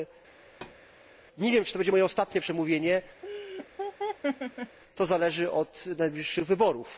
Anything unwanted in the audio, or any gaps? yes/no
yes